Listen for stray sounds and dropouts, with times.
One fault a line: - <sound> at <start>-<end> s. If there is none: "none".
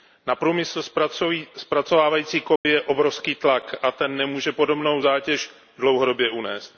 - dropout at 2.6-2.7 s